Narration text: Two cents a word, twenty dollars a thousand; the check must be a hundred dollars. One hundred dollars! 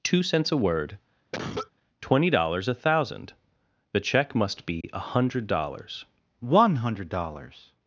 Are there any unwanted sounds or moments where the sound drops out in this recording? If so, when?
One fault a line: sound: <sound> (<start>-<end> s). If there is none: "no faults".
sound: cough (1.3-1.7 s)
sound: dropout (4.8-4.8 s)